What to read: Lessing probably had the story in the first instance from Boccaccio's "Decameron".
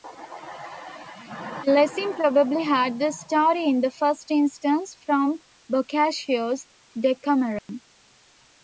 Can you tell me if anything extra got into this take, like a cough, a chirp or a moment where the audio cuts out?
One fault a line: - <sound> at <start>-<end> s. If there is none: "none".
- dropout at 7.6-7.7 s